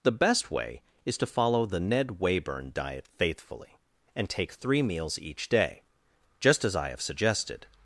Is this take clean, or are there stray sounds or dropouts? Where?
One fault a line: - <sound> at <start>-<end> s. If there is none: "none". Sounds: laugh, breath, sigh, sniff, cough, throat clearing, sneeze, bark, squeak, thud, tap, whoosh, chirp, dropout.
none